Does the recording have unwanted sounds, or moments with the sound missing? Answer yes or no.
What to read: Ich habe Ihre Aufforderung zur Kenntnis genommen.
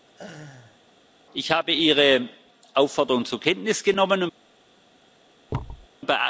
yes